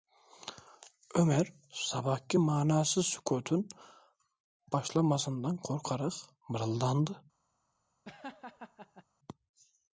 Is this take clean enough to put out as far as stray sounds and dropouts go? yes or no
no